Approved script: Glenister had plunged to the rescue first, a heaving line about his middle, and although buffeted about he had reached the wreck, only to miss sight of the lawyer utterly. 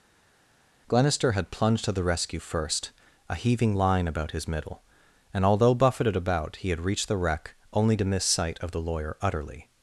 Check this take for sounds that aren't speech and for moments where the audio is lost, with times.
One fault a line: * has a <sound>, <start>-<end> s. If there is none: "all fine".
all fine